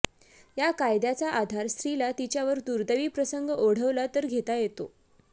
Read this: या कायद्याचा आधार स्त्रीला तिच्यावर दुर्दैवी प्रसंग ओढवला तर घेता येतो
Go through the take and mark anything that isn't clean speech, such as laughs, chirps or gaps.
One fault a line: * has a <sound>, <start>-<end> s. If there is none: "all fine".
all fine